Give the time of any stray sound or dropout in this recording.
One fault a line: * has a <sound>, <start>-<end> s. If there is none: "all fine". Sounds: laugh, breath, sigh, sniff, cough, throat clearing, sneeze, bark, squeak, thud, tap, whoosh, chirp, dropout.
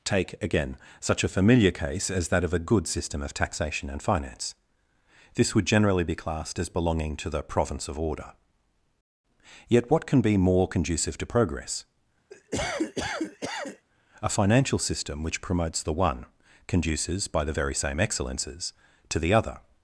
* has a cough, 12.3-13.9 s